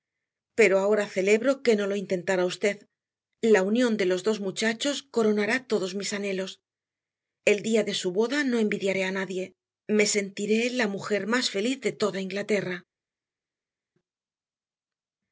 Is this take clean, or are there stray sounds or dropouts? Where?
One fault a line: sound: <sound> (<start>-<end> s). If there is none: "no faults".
no faults